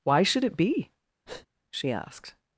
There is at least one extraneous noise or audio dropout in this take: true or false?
true